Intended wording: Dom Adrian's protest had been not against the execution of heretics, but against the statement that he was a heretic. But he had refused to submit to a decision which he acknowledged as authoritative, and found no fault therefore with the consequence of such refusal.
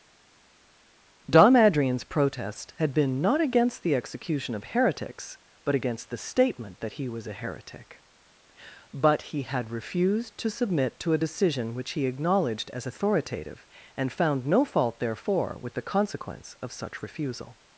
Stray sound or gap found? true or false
false